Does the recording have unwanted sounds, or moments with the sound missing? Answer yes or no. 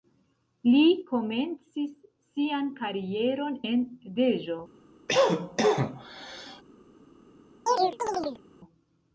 yes